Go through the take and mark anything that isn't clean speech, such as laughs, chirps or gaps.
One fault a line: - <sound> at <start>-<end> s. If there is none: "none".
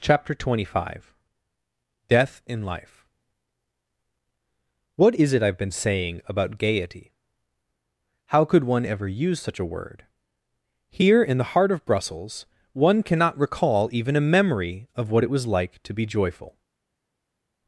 none